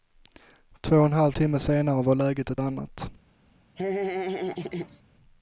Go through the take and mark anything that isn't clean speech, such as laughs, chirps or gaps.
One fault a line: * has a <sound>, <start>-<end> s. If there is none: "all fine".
* has a laugh, 3.8-5.0 s